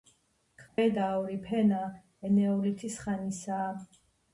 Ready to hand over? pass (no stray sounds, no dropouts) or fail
fail